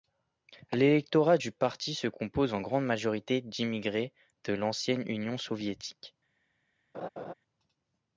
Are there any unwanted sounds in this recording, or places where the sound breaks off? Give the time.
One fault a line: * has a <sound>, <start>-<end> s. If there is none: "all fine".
* has a laugh, 6.9-7.3 s